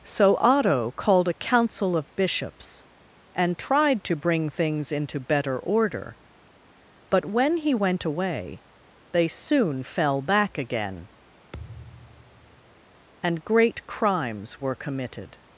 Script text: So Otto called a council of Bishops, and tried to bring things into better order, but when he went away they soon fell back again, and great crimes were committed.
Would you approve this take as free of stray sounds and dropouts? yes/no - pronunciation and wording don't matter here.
no